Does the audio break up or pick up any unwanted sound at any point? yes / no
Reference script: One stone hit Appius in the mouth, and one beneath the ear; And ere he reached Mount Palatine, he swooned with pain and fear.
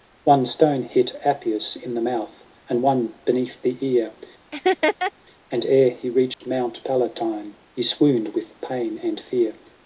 yes